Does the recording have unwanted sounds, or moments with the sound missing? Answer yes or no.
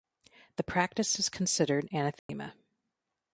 yes